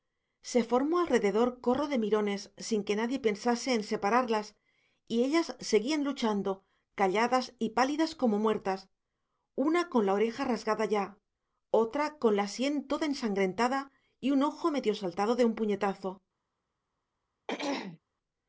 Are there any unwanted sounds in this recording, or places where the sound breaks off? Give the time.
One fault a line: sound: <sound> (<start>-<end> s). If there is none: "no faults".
sound: throat clearing (17.5-18.0 s)